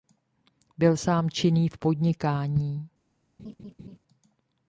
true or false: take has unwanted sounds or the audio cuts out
true